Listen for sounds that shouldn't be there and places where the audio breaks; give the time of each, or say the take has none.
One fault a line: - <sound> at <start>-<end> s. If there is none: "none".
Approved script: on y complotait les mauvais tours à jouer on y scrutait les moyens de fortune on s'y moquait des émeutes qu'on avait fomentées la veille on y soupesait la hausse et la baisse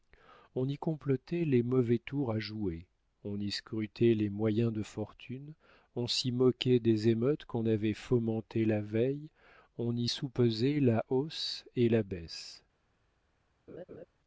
- laugh at 13.7-14.1 s